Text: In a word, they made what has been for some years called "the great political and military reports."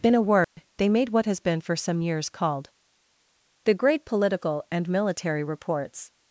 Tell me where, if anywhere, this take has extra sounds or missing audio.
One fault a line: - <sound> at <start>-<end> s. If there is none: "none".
- dropout at 0.4-0.6 s